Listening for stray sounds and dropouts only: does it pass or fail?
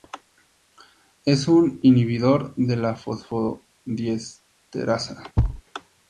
fail